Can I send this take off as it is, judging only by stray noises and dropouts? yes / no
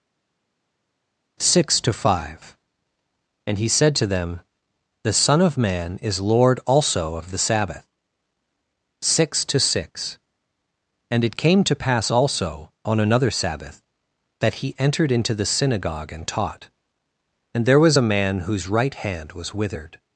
yes